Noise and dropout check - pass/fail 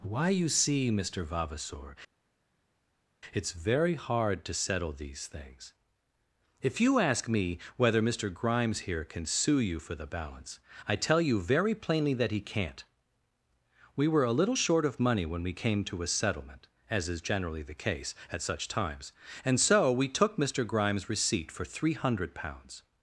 pass